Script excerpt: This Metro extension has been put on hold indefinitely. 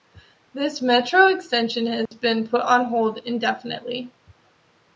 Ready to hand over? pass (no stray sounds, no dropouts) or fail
fail